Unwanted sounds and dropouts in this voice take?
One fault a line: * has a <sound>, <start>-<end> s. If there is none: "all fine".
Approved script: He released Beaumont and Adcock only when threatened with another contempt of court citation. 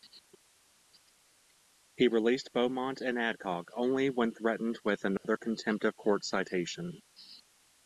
* has a dropout, 5.2-5.2 s